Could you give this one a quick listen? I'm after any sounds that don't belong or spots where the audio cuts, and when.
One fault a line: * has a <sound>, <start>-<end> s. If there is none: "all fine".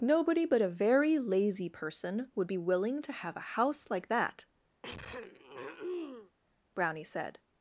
* has a throat clearing, 4.8-6.3 s